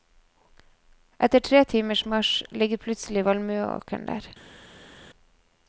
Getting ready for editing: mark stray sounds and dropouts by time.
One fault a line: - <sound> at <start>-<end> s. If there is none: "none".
none